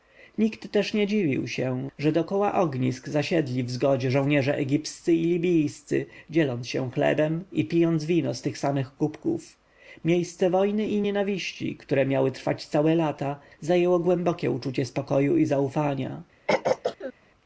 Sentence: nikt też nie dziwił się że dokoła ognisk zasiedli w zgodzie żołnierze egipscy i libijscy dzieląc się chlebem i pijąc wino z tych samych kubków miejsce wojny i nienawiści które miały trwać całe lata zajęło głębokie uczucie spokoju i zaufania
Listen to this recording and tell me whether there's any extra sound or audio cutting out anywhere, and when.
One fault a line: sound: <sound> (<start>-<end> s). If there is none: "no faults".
sound: throat clearing (16.5-17.1 s)